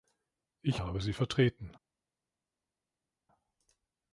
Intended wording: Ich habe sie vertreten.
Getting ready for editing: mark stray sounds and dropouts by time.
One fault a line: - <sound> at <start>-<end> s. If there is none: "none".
none